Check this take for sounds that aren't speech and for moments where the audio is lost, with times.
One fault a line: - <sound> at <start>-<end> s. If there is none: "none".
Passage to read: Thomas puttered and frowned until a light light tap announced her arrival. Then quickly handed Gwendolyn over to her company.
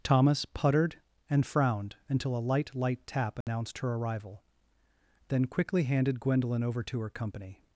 - dropout at 3.4-3.5 s